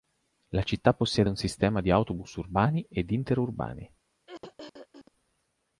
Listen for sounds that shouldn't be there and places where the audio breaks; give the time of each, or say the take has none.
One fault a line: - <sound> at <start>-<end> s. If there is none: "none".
- throat clearing at 4.3-5.1 s